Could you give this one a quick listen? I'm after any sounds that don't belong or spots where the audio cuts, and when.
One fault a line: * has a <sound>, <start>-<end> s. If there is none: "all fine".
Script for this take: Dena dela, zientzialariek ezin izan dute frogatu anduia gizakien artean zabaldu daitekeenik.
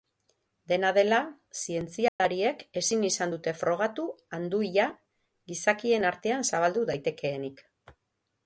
* has a dropout, 2.1-2.2 s